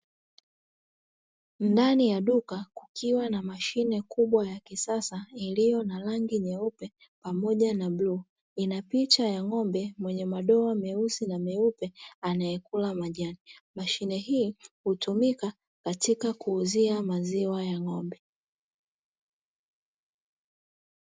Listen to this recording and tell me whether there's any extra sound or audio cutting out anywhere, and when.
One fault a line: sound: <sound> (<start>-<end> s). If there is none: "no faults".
no faults